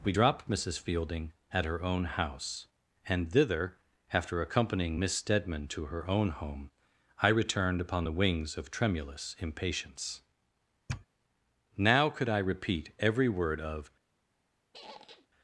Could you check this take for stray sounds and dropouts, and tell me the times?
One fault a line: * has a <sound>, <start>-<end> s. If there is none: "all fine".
* has a sniff, 10.9-11.1 s
* has a squeak, 14.7-15.3 s